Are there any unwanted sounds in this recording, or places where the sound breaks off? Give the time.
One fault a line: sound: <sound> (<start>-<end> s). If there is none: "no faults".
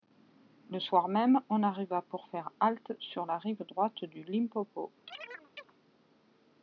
sound: chirp (5.1-5.7 s)